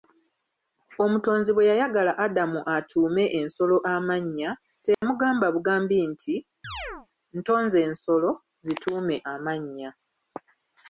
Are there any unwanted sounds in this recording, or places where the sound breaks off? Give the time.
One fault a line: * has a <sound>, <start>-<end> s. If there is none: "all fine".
* has a dropout, 4.9-5.0 s
* has a chirp, 6.6-7.1 s